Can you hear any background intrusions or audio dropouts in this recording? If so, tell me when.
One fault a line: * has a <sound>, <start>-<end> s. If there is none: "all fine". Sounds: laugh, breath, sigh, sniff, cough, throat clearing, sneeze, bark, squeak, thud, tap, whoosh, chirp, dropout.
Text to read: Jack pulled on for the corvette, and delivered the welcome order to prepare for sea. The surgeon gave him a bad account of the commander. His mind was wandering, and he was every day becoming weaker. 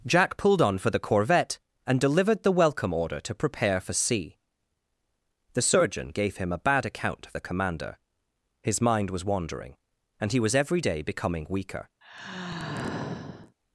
* has a sigh, 12.0-13.6 s